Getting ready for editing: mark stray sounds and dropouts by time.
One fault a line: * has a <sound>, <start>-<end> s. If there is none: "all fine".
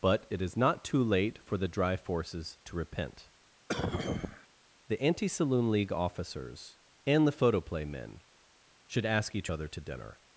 * has a cough, 3.7-4.5 s